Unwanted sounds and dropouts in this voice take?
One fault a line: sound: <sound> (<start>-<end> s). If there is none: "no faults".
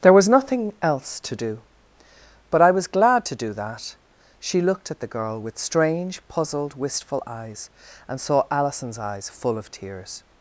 no faults